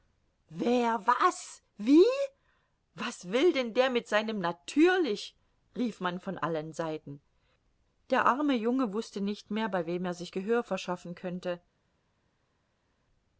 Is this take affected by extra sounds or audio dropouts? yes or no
no